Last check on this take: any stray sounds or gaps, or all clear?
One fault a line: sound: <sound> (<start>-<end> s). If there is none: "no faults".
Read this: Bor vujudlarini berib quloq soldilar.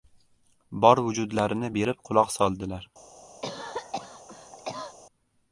sound: cough (3.4-5.0 s)